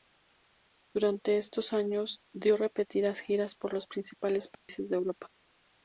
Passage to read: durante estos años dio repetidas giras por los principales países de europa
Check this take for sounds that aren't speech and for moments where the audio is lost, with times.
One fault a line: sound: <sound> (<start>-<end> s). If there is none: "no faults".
sound: dropout (4.5-4.7 s)